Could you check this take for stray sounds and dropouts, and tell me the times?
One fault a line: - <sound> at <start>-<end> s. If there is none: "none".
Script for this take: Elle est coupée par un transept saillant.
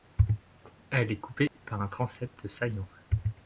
- dropout at 1.5-1.6 s